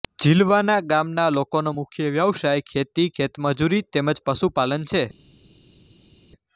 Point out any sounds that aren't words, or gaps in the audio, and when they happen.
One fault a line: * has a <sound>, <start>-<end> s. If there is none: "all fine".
all fine